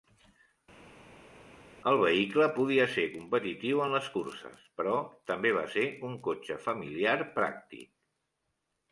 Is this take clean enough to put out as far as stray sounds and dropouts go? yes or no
yes